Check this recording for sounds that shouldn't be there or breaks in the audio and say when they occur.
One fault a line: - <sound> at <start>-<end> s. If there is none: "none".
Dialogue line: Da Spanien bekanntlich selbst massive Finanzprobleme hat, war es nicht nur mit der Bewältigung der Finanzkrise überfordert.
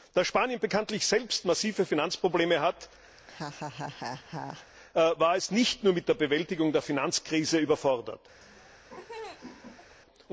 - laugh at 3.2-4.7 s
- laugh at 8.4-10.0 s